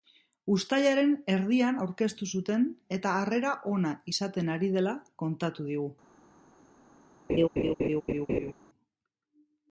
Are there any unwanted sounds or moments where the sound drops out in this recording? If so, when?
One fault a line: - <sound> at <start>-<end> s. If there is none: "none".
- laugh at 7.3-8.5 s